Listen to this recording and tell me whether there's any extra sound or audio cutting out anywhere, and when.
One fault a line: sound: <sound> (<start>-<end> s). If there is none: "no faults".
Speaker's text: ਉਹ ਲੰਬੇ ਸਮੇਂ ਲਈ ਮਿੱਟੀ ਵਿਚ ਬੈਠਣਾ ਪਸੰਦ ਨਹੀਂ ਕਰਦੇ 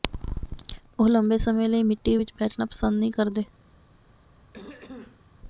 sound: throat clearing (4.5-5.2 s)